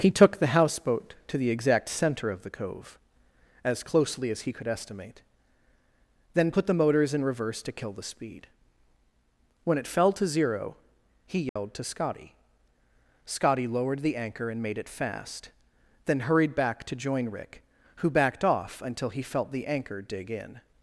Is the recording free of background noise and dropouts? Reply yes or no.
no